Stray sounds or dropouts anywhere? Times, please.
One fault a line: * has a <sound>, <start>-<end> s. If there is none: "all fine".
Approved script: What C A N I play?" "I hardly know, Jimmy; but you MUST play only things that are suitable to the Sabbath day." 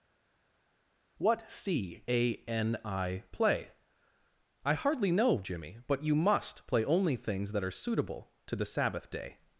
all fine